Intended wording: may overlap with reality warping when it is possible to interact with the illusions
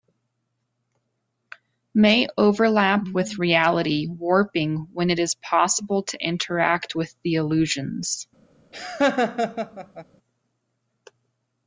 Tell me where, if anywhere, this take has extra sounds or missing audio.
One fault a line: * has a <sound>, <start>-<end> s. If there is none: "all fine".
* has a laugh, 8.7-10.1 s